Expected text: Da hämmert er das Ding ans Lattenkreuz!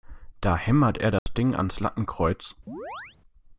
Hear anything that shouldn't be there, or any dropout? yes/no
yes